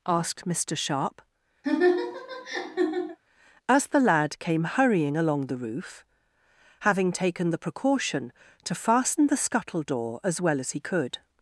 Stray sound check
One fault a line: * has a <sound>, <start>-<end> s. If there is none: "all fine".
* has a laugh, 1.6-3.2 s